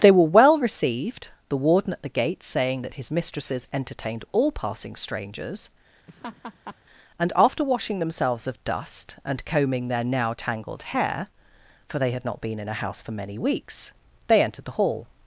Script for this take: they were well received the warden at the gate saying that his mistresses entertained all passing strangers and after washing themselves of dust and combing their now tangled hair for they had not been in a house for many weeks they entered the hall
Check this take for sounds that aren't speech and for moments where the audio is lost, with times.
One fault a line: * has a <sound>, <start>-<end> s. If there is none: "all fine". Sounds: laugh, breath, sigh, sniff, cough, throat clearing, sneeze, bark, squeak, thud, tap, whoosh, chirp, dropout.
* has a laugh, 6.1-6.8 s